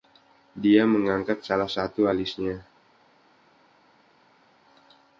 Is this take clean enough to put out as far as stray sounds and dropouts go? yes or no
yes